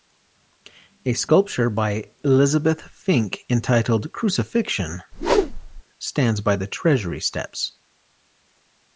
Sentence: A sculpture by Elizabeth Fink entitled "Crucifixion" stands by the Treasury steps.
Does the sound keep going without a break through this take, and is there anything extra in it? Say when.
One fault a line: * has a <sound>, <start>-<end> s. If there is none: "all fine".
* has a whoosh, 5.1-5.8 s